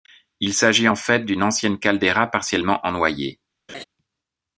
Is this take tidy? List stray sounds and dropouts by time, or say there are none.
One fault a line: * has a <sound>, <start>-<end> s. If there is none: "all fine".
* has a laugh, 3.7-3.8 s